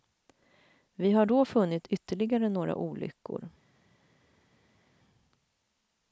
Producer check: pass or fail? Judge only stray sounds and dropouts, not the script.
pass